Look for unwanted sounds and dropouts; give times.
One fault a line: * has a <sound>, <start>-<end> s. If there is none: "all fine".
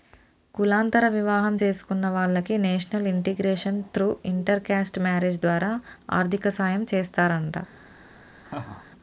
* has a laugh, 8.4-8.9 s